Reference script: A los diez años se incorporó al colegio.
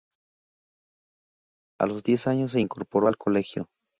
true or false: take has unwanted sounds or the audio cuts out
false